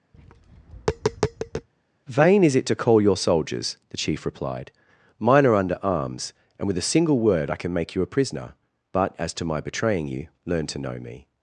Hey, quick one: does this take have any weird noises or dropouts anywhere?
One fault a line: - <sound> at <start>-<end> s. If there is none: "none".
- tap at 0.1-1.7 s